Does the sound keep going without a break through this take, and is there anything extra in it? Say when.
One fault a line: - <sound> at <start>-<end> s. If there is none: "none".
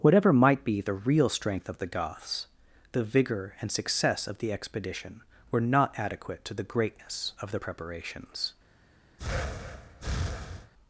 - breath at 9.2-10.7 s